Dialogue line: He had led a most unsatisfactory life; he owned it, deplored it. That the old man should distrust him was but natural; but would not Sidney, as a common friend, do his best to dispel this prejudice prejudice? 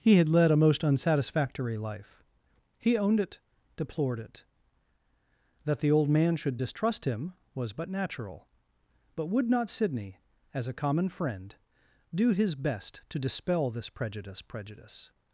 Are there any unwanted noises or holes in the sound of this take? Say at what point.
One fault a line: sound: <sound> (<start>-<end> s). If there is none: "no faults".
no faults